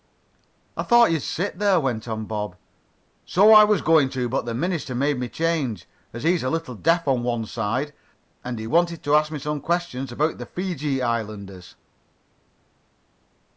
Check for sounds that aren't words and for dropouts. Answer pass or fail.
pass